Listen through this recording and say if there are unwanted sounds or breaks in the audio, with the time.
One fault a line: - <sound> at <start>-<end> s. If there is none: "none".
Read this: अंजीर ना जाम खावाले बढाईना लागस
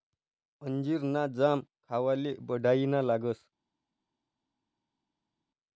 none